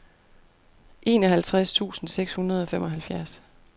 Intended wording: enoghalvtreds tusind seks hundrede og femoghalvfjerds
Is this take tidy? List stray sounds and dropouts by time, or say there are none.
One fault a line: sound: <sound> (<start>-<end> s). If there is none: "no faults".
no faults